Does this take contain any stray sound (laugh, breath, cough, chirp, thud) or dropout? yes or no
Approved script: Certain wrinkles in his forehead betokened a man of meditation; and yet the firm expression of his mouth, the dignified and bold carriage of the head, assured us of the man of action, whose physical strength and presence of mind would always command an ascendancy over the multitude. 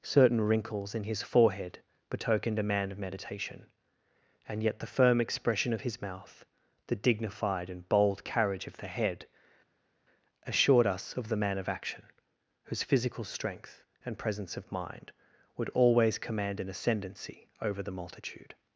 no